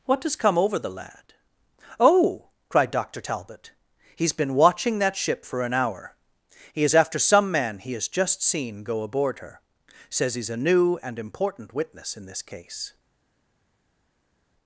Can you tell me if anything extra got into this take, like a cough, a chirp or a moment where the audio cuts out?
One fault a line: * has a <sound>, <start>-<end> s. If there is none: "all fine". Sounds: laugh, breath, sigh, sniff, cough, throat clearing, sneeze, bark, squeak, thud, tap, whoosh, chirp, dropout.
all fine